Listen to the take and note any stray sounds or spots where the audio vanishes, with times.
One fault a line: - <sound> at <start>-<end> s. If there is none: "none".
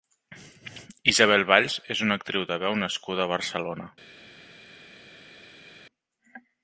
none